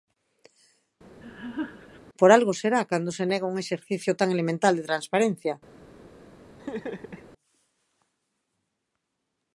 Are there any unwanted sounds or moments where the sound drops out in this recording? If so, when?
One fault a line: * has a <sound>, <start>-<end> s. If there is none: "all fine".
* has a laugh, 1.2-2.0 s
* has a laugh, 6.6-7.3 s